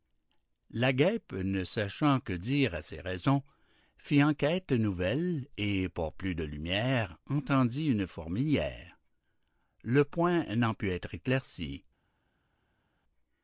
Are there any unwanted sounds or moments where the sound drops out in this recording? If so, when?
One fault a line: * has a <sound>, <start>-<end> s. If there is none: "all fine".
all fine